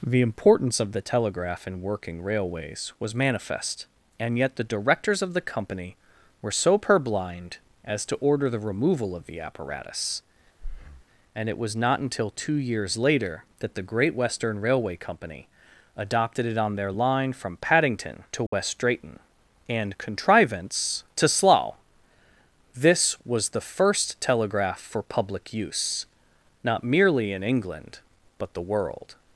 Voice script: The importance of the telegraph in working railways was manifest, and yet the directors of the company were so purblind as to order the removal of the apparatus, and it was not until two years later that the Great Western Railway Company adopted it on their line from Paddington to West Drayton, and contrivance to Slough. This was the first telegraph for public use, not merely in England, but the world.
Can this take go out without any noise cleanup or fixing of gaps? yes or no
no